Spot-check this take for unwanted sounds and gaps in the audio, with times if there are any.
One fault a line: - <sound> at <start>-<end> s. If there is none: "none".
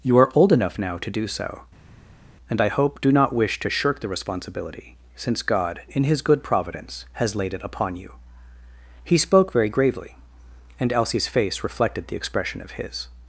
none